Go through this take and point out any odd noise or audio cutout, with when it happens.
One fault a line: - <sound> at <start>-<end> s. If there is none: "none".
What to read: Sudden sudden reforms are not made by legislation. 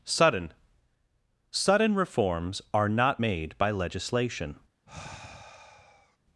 - sigh at 4.9-6.2 s